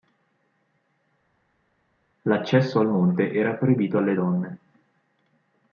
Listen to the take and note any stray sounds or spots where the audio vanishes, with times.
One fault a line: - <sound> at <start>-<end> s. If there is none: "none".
none